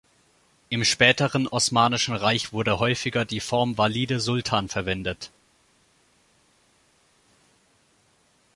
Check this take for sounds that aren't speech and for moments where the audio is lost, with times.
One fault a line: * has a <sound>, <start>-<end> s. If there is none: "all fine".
all fine